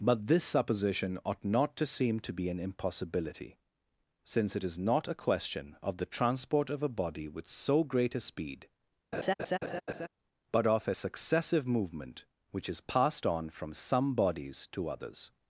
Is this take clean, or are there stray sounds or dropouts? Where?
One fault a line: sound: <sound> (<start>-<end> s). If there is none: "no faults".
sound: laugh (9.1-10.1 s)